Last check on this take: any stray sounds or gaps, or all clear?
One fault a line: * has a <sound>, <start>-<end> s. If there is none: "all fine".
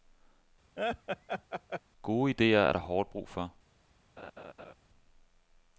* has a laugh, 0.8-1.8 s
* has a laugh, 4.2-4.7 s